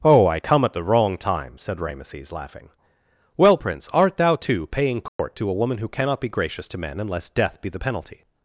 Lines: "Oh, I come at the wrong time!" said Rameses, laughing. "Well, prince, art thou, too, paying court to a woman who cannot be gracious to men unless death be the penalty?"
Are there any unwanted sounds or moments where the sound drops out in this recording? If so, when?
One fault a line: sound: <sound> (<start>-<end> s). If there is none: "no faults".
sound: dropout (5.1-5.2 s)